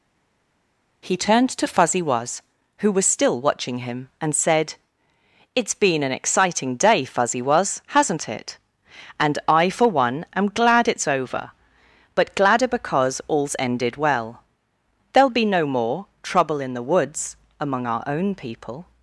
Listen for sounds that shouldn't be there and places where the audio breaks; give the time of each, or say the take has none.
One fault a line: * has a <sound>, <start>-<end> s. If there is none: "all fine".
all fine